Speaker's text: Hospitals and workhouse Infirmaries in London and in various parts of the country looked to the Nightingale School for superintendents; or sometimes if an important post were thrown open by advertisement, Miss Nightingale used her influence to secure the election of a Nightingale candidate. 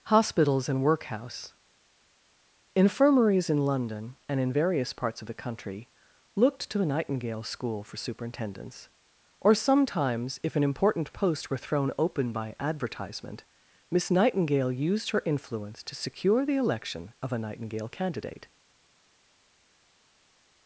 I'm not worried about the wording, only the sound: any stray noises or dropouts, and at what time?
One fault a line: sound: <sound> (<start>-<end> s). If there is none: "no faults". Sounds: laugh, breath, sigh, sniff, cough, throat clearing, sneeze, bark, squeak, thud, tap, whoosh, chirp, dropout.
no faults